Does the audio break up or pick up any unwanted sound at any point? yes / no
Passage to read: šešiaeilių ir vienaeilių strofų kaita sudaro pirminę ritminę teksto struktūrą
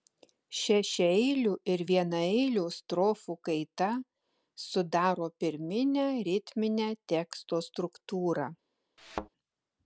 yes